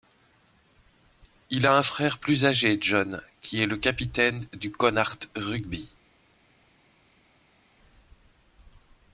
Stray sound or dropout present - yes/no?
no